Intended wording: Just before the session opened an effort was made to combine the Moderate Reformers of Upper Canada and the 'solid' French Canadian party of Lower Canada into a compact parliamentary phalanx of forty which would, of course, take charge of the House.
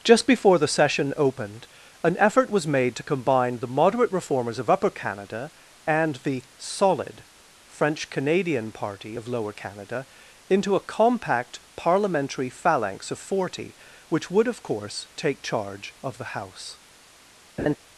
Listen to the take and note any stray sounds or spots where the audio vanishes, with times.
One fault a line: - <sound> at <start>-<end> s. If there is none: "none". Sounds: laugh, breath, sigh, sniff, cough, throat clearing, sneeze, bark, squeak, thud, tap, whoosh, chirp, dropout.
- laugh at 17.6-17.8 s